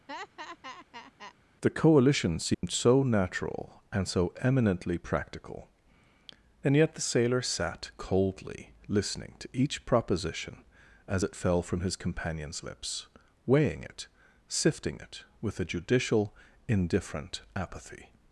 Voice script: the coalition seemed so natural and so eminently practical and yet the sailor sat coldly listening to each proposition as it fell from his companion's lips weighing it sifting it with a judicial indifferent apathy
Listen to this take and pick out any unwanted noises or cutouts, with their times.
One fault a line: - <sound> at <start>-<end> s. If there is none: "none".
- laugh at 0.1-1.3 s
- dropout at 2.5-2.6 s